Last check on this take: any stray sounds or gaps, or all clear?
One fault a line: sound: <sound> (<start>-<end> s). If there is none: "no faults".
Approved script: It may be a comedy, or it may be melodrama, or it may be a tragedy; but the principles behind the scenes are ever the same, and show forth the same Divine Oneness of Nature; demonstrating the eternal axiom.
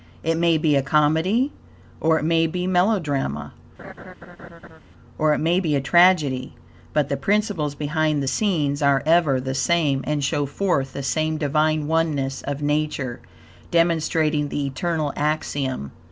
sound: laugh (3.8-4.8 s)